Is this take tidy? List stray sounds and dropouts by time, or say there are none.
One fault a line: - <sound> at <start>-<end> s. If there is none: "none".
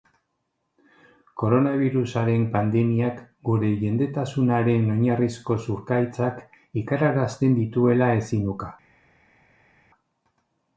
none